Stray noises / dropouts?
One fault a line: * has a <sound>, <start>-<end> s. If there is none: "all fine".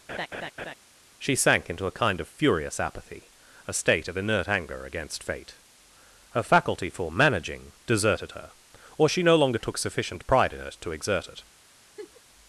* has a laugh, 0.1-0.7 s
* has a laugh, 12.0-12.2 s